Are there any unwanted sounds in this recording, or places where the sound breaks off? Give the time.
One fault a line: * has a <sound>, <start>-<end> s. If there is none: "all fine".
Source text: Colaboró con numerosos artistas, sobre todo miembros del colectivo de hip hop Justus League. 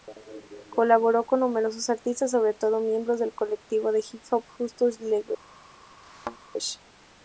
* has a thud, 6.0-6.4 s